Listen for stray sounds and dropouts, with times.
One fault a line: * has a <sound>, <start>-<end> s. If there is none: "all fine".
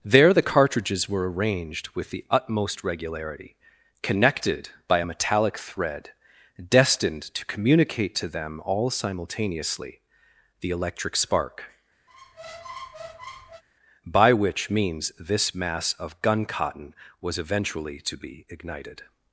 * has a squeak, 12.1-13.6 s